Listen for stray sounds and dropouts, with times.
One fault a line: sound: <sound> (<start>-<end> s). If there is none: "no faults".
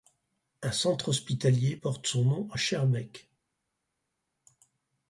no faults